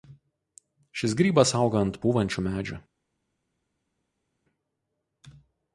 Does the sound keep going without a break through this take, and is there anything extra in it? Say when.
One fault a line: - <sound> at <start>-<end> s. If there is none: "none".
none